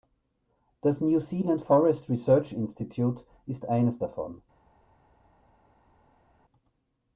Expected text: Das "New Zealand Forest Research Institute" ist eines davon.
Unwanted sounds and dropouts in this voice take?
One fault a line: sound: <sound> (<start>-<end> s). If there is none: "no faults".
no faults